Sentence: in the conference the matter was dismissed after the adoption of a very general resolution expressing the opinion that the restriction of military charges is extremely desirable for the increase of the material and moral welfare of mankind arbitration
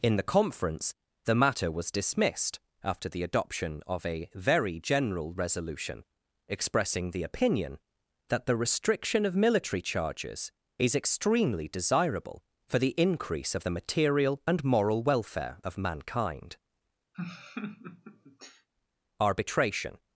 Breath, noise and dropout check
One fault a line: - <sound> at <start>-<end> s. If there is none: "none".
- laugh at 17.1-18.7 s